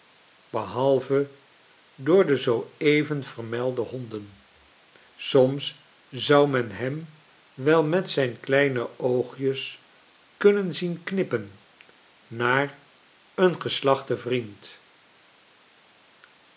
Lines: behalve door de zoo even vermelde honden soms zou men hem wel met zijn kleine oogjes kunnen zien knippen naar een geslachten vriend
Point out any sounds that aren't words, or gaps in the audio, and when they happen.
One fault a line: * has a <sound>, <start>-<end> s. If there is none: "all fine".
all fine